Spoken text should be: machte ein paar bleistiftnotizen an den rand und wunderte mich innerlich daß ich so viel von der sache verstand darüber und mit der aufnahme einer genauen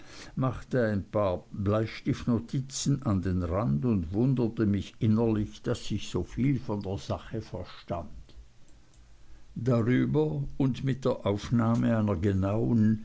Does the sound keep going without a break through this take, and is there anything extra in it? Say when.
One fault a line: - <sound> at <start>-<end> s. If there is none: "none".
none